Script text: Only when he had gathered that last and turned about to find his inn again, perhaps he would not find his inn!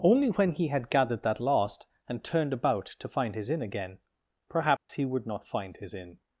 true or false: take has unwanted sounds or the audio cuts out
true